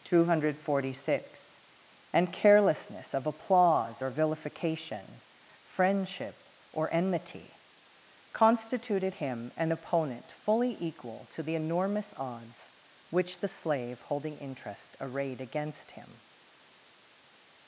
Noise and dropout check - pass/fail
pass